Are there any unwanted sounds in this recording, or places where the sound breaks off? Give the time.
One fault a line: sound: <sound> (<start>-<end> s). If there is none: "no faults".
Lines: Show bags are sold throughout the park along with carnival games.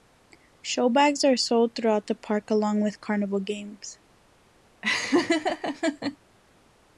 sound: laugh (4.8-6.2 s)